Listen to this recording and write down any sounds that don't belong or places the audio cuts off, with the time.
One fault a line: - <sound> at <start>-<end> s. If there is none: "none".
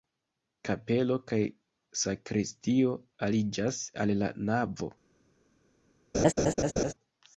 - laugh at 6.1-6.9 s